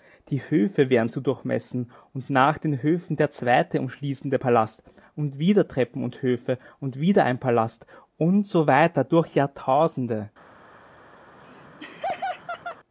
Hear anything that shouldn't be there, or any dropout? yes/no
yes